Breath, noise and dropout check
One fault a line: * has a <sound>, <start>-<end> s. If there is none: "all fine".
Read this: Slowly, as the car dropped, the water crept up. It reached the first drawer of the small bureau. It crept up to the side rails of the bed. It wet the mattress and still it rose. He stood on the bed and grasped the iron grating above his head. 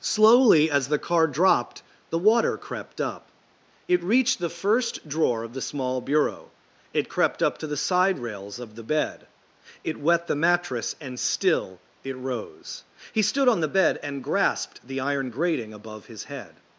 all fine